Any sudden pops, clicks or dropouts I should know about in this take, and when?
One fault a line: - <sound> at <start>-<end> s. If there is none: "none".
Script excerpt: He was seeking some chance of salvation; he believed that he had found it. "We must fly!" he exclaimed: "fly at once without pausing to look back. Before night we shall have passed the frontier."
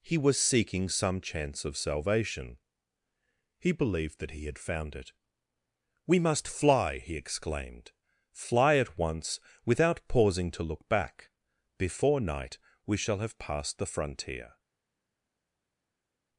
none